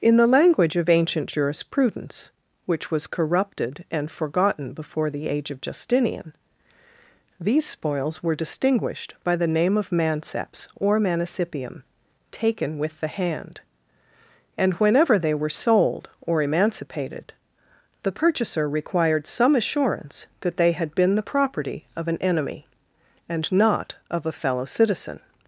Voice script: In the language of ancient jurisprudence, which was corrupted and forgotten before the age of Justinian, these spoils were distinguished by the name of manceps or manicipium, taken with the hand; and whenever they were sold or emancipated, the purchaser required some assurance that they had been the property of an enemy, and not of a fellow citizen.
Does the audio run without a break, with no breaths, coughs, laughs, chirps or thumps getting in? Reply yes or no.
yes